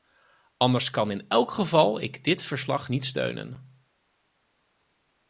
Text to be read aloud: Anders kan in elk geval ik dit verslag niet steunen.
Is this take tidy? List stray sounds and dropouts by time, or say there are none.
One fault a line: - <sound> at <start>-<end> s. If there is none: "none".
none